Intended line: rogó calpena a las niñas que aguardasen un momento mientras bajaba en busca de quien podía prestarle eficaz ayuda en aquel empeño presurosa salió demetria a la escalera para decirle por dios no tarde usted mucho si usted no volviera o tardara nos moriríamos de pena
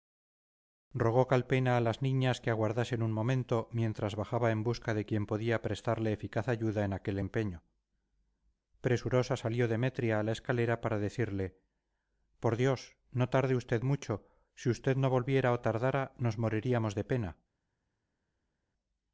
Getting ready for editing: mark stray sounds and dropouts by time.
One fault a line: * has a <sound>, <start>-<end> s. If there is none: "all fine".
all fine